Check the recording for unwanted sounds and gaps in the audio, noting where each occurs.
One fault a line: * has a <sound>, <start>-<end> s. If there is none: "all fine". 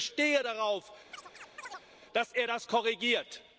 * has a chirp, 1.1-1.9 s